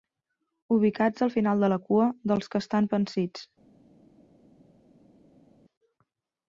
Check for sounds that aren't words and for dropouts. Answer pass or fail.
pass